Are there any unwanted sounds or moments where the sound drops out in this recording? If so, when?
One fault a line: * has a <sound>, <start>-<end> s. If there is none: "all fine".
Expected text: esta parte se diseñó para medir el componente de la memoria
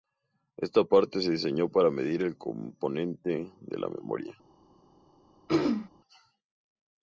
* has a throat clearing, 5.5-5.9 s